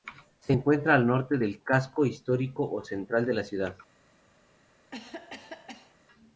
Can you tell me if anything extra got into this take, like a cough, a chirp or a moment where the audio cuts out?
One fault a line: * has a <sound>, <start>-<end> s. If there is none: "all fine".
* has a cough, 4.9-6.0 s